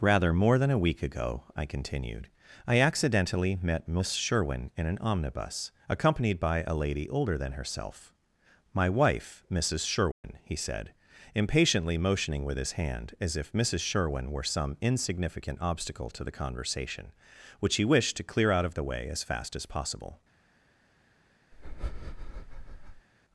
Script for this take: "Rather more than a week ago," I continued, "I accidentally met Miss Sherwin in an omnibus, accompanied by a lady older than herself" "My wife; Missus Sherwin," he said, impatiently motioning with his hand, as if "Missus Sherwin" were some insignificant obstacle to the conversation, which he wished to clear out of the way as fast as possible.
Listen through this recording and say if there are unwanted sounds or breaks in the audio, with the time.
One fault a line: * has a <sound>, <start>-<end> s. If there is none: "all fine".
* has a dropout, 10.1-10.2 s
* has a breath, 21.5-23.1 s